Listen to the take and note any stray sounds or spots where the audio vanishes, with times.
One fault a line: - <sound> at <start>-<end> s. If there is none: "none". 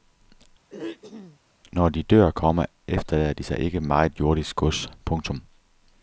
- throat clearing at 0.7-1.4 s